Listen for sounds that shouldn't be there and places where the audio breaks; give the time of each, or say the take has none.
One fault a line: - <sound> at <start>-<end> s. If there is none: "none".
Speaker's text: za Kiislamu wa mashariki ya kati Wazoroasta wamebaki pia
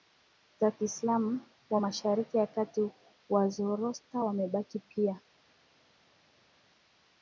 none